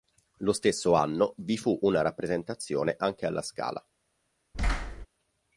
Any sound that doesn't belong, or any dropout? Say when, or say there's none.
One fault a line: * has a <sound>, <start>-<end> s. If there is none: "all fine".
* has a thud, 4.5-5.1 s